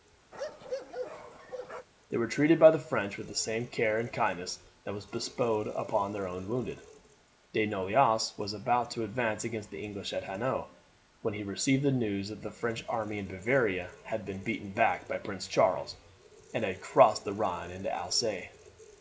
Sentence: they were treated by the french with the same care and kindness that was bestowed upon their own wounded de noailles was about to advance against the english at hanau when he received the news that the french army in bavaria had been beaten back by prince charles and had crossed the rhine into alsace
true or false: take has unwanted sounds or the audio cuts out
true